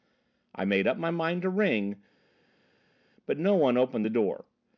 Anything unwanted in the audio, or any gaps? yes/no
no